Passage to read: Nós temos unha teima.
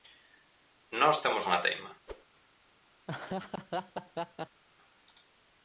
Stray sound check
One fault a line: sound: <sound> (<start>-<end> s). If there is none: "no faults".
sound: whoosh (2.1-2.2 s)
sound: laugh (3.1-4.6 s)